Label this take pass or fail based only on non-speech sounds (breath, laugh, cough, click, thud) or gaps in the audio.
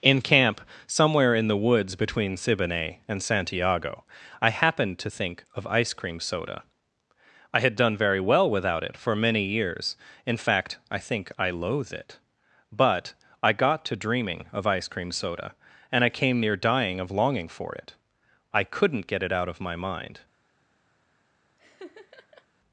fail